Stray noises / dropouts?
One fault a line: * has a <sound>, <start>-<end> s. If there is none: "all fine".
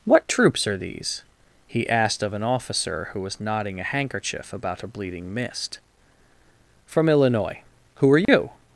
* has a dropout, 8.3-8.3 s